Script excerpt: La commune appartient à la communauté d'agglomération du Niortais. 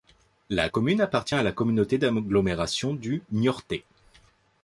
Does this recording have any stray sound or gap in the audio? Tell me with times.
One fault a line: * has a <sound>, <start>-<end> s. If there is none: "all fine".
all fine